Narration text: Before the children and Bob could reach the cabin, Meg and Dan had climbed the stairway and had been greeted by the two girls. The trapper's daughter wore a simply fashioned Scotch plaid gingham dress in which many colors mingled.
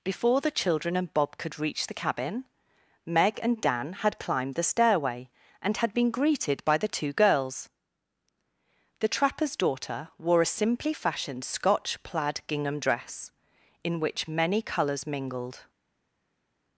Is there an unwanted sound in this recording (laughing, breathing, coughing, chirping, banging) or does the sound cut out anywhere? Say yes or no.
no